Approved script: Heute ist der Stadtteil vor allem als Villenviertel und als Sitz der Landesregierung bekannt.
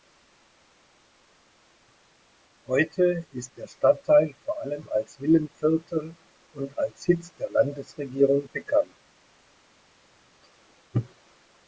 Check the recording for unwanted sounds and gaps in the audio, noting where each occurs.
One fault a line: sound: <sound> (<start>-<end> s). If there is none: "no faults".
no faults